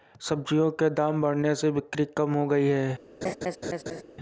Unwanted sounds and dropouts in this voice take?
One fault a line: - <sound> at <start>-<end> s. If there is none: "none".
- laugh at 3.2-4.0 s